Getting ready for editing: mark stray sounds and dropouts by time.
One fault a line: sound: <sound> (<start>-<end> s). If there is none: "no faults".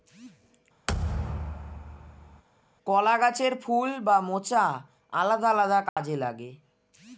sound: thud (0.9-2.4 s)
sound: dropout (5.9-6.0 s)